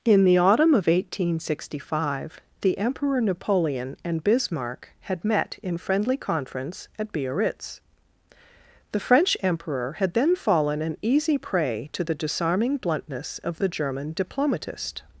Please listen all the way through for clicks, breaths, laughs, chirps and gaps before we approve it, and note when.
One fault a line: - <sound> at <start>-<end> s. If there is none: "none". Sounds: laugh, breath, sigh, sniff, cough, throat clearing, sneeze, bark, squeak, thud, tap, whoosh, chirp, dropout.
none